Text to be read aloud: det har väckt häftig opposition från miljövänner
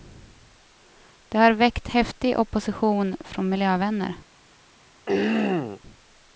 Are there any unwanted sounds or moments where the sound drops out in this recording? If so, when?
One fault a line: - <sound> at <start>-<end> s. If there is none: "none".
- throat clearing at 5.1-5.8 s